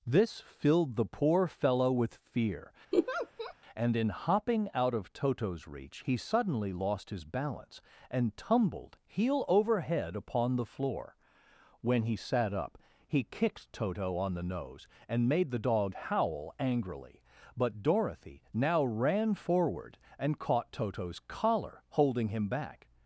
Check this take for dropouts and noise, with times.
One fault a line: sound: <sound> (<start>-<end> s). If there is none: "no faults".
sound: laugh (2.9-3.5 s)